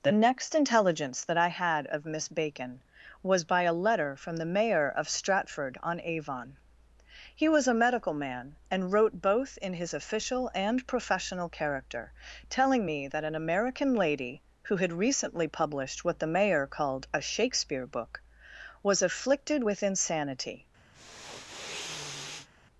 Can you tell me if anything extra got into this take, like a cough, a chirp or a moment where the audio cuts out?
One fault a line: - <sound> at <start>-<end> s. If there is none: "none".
- sniff at 20.9-22.5 s